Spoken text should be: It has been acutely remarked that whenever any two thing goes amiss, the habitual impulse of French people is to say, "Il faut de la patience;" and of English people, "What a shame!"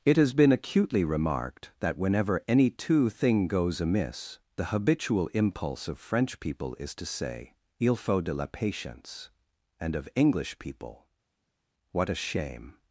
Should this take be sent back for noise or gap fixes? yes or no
no